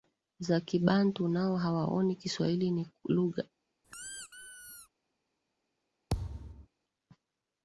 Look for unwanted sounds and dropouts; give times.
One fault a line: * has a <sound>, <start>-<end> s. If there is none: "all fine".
* has a squeak, 3.8-4.9 s
* has a thud, 6.1-6.7 s